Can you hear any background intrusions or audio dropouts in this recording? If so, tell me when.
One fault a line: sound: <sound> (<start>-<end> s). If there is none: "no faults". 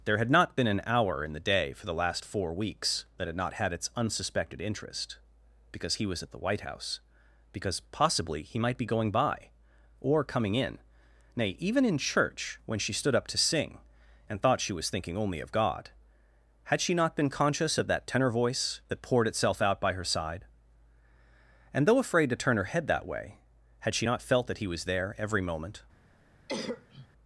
sound: cough (26.5-27.1 s)